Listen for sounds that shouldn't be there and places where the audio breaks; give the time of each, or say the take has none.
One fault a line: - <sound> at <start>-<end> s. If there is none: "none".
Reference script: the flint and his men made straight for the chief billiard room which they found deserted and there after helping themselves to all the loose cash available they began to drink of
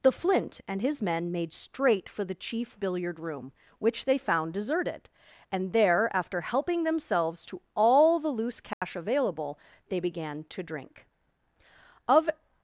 - dropout at 8.7-8.8 s